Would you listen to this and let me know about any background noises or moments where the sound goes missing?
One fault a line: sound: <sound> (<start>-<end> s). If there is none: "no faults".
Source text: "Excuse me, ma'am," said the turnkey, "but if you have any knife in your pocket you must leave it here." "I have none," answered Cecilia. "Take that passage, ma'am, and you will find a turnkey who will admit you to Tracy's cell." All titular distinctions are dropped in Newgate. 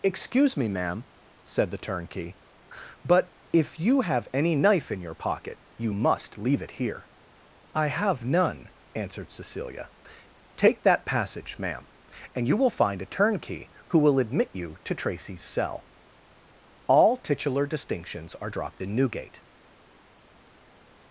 no faults